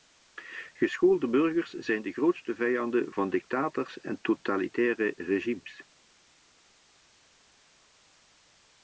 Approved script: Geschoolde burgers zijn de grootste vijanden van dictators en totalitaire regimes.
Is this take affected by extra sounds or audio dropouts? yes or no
no